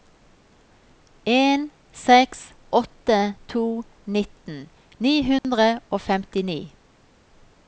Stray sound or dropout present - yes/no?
yes